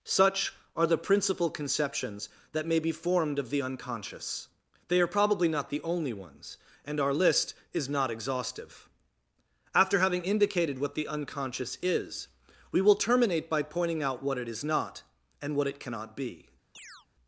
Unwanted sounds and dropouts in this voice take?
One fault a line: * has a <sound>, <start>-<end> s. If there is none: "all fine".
* has a chirp, 16.7-17.1 s